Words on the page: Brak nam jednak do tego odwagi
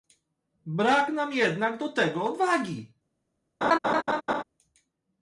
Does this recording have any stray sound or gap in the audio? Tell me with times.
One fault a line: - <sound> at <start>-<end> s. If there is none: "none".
- laugh at 3.6-4.4 s